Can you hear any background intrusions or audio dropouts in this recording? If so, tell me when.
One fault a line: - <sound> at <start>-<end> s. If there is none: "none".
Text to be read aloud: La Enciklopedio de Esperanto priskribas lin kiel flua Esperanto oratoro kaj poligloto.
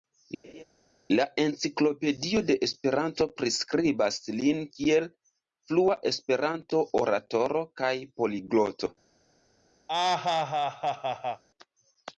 - laugh at 0.4-0.6 s
- laugh at 9.9-11.4 s